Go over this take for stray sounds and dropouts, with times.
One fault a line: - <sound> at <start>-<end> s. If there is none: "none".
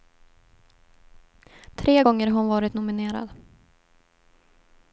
none